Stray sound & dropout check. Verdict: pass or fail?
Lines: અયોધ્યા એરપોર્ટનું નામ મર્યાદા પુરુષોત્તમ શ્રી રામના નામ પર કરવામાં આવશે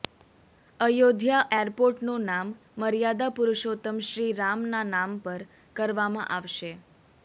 pass